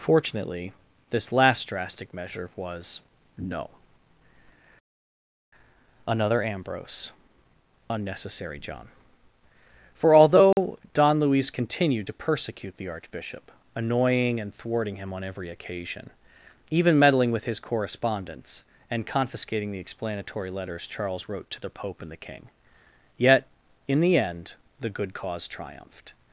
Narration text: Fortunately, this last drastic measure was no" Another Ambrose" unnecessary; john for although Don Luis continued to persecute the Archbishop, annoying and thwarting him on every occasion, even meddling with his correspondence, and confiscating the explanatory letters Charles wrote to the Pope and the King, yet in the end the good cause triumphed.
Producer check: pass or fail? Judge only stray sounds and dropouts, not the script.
fail